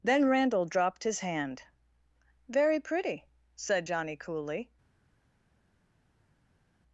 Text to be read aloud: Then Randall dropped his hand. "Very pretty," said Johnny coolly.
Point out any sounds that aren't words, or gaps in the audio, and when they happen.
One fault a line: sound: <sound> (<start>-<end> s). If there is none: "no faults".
no faults